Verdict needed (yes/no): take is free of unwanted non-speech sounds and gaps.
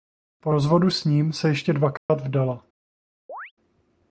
no